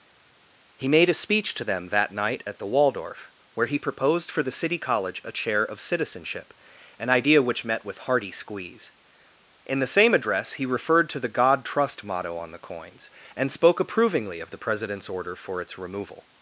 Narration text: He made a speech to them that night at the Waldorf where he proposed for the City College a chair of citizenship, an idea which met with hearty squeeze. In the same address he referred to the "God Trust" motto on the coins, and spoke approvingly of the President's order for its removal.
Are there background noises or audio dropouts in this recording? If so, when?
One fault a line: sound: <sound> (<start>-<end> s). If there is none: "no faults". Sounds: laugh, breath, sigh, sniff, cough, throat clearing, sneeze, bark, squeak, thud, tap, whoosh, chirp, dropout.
no faults